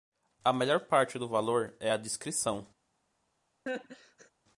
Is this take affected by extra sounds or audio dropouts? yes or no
yes